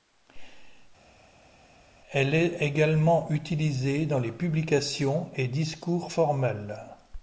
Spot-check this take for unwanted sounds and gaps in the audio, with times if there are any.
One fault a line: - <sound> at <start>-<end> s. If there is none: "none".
none